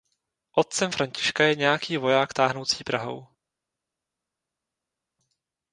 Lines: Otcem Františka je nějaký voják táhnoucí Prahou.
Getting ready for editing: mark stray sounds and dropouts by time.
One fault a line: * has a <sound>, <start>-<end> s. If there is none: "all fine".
all fine